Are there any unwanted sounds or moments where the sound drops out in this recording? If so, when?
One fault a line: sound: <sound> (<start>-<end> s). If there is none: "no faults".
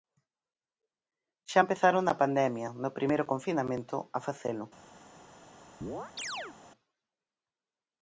sound: chirp (5.8-6.6 s)